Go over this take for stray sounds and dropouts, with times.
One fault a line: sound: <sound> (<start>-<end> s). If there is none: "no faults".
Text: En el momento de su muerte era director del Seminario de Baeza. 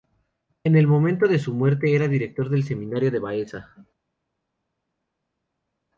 no faults